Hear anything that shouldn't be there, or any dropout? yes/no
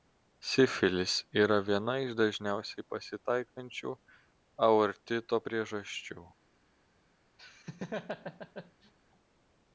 yes